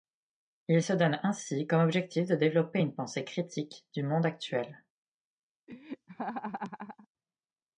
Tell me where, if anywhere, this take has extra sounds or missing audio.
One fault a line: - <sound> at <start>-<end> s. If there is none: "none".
- laugh at 5.7-7.1 s